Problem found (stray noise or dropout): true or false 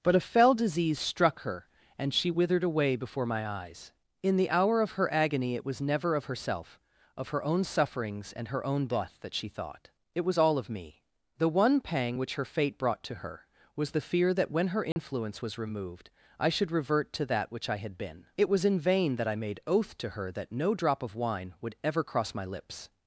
true